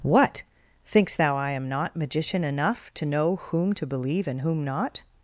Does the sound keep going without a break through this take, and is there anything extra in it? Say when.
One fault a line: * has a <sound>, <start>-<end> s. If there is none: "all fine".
all fine